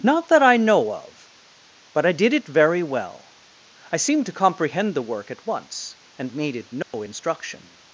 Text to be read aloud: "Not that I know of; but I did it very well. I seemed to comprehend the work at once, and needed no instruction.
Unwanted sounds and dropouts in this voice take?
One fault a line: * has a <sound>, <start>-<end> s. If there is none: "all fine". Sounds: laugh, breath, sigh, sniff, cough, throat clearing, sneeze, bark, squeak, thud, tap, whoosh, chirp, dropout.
* has a dropout, 6.8-6.9 s